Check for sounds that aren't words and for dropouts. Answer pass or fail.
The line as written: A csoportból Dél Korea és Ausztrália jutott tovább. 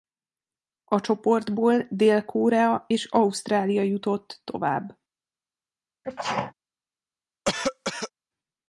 fail